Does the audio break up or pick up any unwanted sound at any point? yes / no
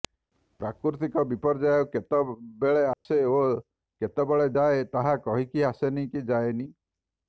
yes